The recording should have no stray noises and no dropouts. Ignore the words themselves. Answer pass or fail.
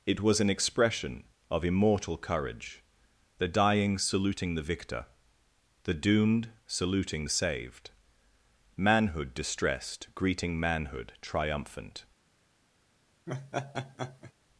fail